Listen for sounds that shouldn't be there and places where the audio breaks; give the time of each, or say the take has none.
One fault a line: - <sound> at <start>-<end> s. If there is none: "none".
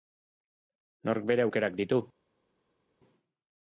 none